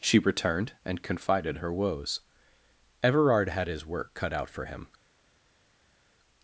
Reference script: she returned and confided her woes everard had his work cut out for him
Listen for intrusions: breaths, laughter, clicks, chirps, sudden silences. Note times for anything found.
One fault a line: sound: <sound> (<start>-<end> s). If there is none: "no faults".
no faults